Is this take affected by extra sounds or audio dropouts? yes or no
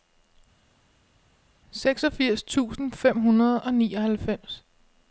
no